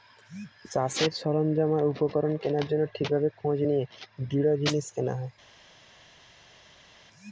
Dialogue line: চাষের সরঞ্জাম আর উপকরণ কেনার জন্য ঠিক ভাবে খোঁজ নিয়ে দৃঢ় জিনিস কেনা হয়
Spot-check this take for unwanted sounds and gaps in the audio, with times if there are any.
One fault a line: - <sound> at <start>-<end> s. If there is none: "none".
none